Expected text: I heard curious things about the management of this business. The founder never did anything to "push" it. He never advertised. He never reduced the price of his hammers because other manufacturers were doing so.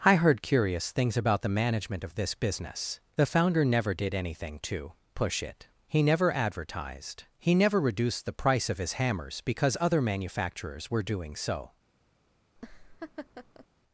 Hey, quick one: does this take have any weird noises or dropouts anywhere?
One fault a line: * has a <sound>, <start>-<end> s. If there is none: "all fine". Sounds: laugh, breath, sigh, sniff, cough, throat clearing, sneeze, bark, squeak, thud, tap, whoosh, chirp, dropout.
* has a laugh, 12.6-13.7 s